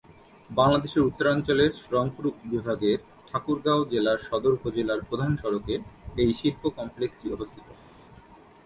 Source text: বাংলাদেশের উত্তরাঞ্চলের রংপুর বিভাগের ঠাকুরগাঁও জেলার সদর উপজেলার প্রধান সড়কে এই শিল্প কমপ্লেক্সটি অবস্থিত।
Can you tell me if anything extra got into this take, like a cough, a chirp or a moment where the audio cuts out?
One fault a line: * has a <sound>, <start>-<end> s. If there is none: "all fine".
all fine